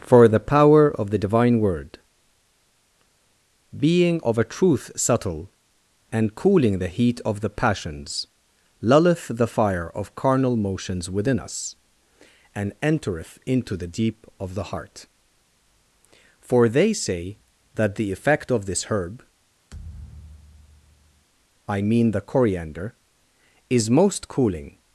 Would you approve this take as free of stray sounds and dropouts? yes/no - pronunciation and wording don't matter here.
no